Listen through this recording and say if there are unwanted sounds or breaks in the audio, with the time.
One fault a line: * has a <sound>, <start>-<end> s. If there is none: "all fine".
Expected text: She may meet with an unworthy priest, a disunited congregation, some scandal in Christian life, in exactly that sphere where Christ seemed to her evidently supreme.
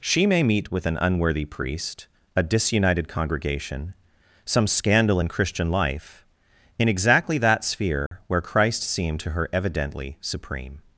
* has a dropout, 8.1-8.1 s